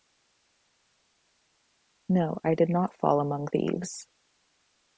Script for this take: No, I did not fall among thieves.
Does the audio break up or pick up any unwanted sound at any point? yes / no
no